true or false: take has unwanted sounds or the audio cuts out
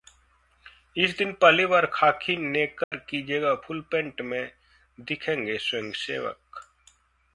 true